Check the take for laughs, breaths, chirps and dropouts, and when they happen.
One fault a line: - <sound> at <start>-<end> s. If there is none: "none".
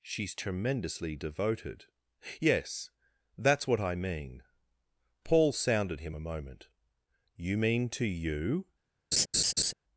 - laugh at 9.1-9.7 s